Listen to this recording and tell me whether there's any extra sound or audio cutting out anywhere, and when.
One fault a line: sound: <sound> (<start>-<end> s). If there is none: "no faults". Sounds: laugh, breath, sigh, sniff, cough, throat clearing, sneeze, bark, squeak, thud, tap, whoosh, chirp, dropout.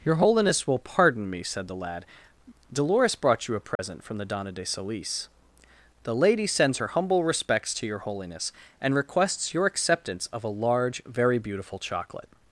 sound: dropout (3.8-3.8 s)